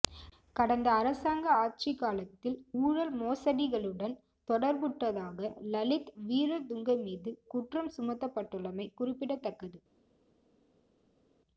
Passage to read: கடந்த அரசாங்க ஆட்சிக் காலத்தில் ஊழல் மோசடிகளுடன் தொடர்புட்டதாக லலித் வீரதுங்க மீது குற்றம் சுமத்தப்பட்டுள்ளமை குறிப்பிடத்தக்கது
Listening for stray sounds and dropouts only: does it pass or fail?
pass